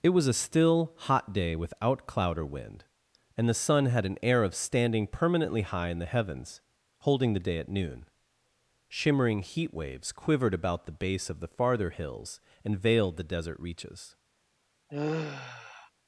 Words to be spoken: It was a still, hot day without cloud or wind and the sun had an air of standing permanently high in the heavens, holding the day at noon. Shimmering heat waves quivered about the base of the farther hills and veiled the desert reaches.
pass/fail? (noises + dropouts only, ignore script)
fail